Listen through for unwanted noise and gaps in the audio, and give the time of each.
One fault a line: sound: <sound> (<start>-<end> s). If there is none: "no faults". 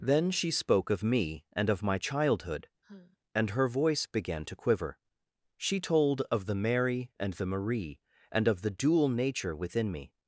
sound: sigh (2.8-3.2 s)